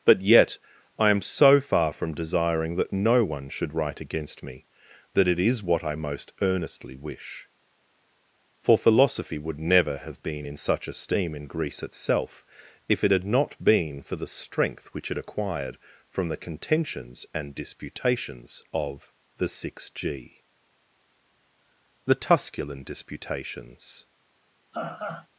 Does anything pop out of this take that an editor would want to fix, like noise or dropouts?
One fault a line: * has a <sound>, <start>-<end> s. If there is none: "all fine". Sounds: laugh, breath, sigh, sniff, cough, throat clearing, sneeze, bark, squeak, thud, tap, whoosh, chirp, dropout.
* has a laugh, 24.7-25.3 s